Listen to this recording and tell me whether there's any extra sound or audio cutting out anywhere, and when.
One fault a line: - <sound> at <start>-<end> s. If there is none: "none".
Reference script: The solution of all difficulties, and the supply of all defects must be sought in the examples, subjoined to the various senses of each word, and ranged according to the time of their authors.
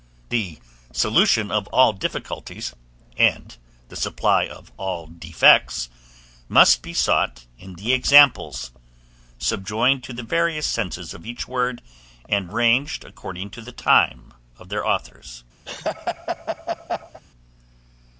- laugh at 15.7-17.2 s